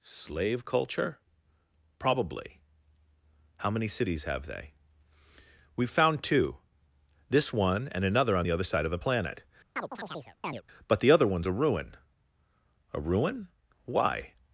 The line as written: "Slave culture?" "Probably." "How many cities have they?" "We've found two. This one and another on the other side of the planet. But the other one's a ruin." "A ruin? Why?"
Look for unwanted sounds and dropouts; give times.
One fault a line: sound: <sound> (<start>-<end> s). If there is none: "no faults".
sound: chirp (9.8-10.6 s)